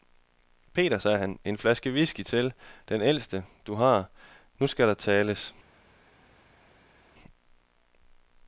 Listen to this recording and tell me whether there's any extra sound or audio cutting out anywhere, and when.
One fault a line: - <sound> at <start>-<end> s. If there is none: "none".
none